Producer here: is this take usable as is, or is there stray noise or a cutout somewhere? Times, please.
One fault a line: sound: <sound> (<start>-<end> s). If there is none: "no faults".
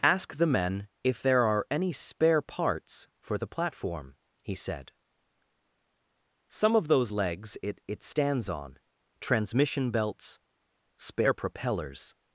no faults